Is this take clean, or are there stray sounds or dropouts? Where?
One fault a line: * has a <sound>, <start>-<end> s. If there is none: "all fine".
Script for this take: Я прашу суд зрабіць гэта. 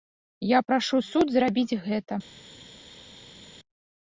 all fine